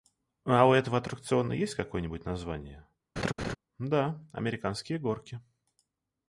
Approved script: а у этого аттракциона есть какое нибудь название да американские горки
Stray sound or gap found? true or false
true